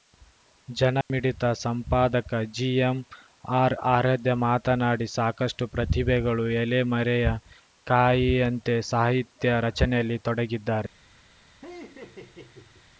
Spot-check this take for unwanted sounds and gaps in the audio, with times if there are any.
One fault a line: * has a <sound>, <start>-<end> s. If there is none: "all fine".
* has a dropout, 1.0-1.1 s
* has a laugh, 11.6-12.9 s